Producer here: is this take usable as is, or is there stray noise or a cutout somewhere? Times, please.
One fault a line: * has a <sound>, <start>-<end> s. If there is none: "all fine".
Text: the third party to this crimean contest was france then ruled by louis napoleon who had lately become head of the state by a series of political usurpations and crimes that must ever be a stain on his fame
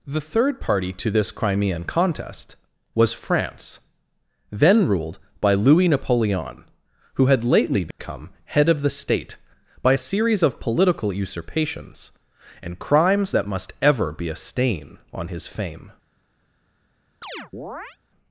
* has a dropout, 7.9-8.0 s
* has a chirp, 17.2-18.0 s